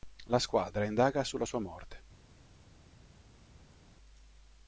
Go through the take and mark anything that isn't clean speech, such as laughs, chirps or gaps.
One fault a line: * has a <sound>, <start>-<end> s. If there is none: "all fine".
all fine